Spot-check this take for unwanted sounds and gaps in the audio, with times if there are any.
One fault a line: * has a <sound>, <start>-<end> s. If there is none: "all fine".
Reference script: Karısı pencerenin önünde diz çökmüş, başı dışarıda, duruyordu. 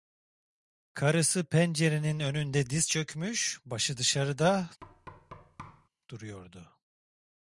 * has a thud, 4.8-5.9 s